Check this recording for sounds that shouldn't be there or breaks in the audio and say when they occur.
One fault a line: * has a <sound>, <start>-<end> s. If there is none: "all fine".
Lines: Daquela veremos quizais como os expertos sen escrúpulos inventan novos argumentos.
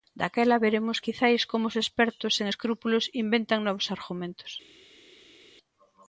all fine